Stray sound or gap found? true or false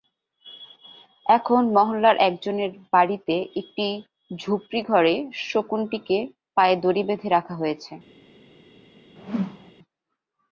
true